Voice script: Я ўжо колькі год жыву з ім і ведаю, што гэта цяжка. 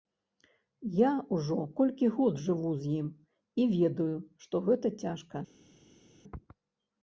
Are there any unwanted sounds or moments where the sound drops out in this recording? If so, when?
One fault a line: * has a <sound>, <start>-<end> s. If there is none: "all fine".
all fine